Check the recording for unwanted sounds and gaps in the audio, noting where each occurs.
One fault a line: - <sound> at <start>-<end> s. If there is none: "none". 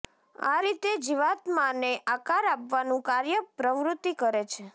none